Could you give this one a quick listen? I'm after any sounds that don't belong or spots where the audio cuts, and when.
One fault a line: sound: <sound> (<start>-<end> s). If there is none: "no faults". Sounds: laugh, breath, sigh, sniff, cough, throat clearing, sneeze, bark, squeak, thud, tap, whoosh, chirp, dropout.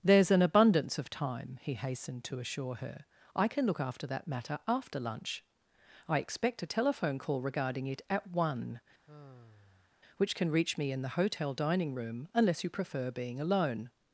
sound: sigh (9.1-9.9 s)